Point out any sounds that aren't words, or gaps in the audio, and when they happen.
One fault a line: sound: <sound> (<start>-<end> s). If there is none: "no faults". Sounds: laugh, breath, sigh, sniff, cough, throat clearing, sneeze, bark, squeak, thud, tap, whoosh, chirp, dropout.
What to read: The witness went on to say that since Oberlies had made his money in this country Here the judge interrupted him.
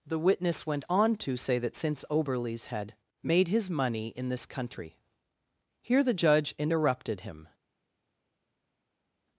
no faults